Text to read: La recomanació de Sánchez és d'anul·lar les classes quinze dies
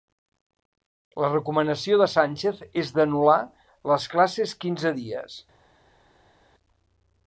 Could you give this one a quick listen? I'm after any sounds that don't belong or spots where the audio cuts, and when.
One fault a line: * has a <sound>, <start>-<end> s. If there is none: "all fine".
all fine